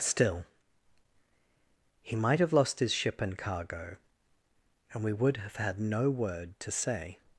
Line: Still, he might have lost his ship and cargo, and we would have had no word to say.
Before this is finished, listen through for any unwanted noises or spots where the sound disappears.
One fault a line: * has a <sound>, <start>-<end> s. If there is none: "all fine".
all fine